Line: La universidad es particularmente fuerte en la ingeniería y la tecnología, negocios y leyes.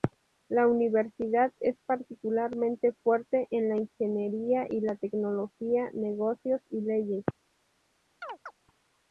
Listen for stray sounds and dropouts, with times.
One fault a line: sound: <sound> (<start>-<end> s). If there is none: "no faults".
sound: chirp (8.2-8.5 s)